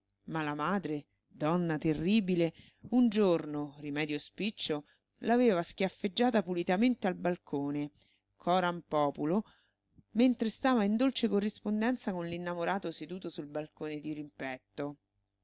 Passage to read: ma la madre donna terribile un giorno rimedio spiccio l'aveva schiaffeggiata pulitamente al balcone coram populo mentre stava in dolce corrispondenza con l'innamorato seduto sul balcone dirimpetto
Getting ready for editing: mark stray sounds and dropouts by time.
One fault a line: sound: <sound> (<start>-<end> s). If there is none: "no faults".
no faults